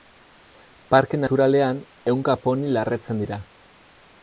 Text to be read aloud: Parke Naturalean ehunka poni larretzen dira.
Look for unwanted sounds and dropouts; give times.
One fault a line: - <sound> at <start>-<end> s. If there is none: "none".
none